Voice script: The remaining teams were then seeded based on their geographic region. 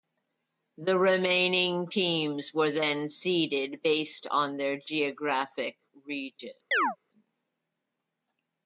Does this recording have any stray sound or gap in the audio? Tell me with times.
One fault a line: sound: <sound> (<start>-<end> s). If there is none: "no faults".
sound: chirp (6.7-7.0 s)